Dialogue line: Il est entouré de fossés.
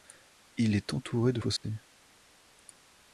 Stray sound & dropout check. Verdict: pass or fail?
fail